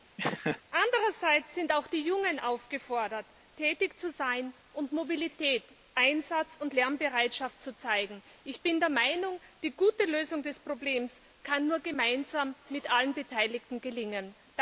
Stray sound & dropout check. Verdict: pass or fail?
fail